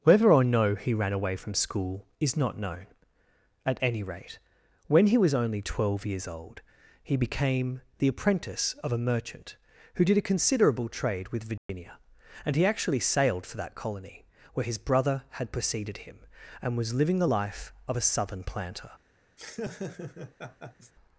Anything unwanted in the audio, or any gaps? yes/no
yes